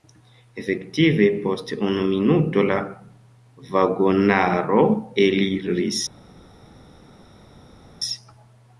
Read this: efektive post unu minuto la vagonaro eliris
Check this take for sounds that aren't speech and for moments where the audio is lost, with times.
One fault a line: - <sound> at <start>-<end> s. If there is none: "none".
none